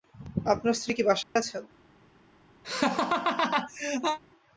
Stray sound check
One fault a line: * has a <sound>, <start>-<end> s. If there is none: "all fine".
* has a dropout, 1.2-1.4 s
* has a laugh, 2.6-4.2 s